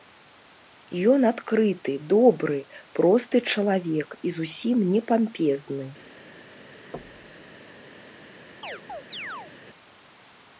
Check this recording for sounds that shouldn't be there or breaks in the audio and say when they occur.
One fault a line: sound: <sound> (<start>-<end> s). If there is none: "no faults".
sound: thud (6.9-7.5 s)
sound: chirp (8.6-9.5 s)